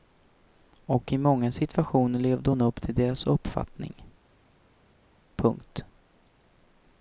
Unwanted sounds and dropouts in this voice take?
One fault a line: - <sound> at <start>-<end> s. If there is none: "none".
none